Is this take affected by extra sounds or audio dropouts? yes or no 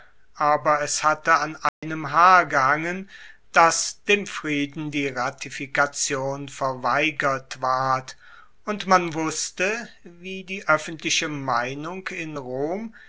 yes